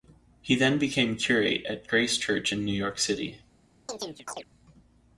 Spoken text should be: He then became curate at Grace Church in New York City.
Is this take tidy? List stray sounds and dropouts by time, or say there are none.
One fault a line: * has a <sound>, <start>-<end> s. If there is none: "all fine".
* has a chirp, 3.9-4.4 s